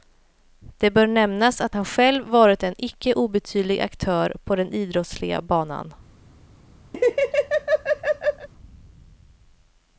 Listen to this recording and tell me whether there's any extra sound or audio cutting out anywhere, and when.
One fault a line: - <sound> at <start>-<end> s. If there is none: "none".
- laugh at 6.9-8.5 s